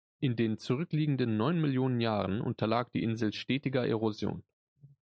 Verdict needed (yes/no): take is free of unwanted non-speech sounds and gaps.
yes